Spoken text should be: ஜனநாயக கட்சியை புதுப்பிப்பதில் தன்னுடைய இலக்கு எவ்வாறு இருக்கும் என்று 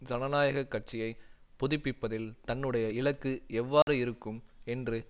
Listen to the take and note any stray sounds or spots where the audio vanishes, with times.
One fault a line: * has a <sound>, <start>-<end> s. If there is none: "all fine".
* has a dropout, 3.8-3.9 s